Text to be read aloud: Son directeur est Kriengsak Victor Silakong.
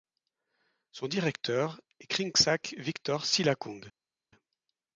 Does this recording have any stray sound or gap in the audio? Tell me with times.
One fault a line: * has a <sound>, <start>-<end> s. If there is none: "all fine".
all fine